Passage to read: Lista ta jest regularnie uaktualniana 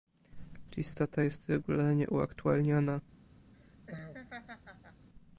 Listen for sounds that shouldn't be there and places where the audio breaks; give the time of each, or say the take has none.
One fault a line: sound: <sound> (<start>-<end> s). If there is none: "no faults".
sound: laugh (3.5-5.1 s)